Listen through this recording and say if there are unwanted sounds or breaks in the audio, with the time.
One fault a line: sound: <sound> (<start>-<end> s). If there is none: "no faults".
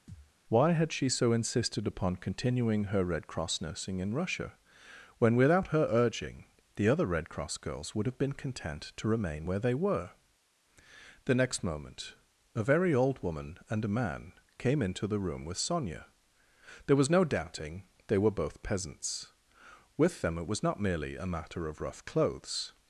sound: thud (0.1-0.3 s)